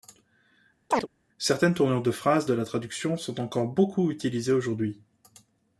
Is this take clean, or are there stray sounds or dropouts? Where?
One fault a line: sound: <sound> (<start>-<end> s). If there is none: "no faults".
sound: chirp (0.9-1.1 s)